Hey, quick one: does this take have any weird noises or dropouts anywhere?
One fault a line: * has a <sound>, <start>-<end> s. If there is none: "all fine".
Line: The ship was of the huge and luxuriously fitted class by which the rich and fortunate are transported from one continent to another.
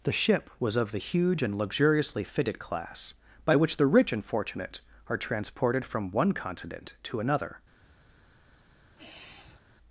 * has a sigh, 9.0-9.6 s